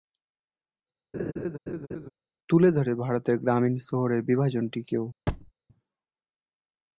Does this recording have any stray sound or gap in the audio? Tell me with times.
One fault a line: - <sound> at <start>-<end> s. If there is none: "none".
- laugh at 1.1-2.1 s
- thud at 5.3-5.5 s